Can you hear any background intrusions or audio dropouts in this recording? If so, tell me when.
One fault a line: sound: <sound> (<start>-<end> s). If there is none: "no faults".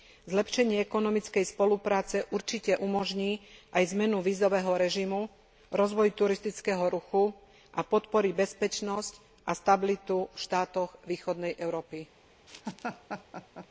sound: laugh (12.5-13.7 s)